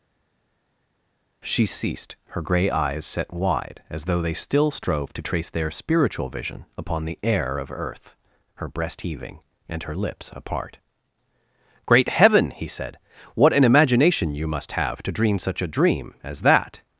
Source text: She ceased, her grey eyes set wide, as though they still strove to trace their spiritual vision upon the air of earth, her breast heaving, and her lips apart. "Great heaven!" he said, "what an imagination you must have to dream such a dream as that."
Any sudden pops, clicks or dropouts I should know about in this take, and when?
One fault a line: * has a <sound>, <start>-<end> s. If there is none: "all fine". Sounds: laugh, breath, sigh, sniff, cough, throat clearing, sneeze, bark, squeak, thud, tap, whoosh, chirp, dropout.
all fine